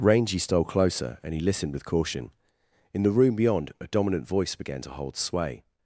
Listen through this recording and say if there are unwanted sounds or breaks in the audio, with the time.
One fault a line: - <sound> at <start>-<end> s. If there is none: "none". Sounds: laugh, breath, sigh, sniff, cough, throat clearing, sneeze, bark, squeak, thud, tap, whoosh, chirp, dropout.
none